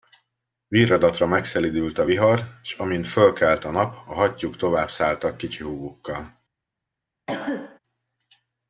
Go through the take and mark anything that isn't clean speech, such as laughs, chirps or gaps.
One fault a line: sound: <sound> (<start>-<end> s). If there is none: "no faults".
sound: cough (7.3-7.8 s)